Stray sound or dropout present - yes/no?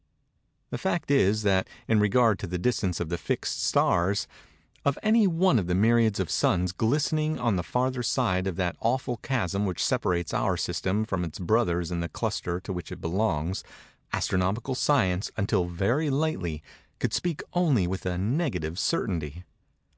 no